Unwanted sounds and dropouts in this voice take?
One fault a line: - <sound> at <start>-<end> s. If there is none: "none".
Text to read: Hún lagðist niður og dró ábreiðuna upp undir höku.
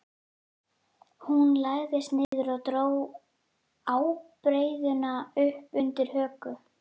- dropout at 2.2-2.3 s